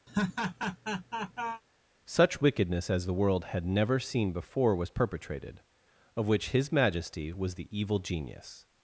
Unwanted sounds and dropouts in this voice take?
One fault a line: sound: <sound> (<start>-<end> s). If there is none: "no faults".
sound: laugh (0.1-1.6 s)